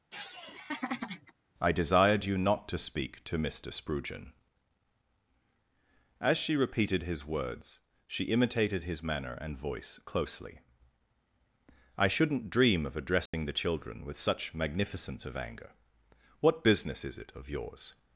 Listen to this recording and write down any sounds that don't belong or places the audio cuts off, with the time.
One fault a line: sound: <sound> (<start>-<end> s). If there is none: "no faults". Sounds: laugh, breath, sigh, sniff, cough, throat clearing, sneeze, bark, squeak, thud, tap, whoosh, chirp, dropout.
sound: laugh (0.1-1.3 s)
sound: dropout (13.3-13.3 s)